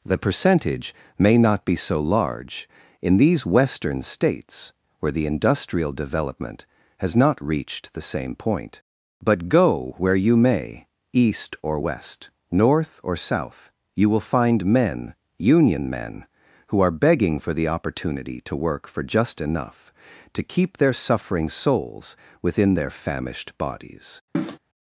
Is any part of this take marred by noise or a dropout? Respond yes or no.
yes